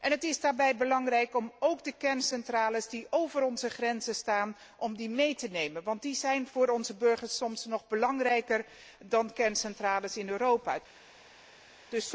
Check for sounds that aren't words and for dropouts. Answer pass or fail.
pass